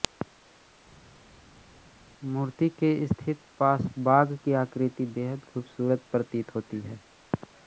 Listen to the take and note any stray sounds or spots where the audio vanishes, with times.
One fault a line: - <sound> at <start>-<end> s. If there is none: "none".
none